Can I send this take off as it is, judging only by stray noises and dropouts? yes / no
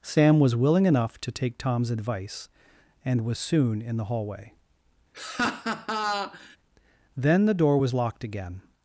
no